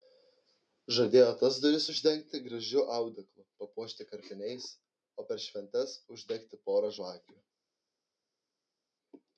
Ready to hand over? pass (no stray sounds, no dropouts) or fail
pass